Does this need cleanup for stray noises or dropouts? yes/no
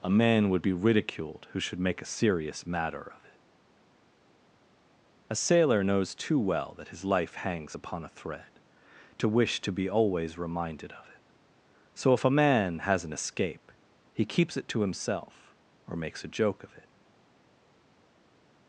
no